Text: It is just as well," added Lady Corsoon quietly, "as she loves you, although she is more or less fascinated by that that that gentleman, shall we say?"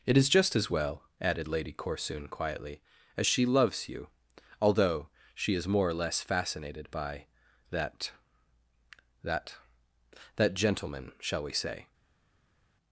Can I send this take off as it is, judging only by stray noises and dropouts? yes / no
yes